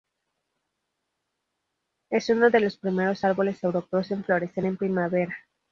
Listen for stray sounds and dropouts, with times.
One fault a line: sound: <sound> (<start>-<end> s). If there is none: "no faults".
no faults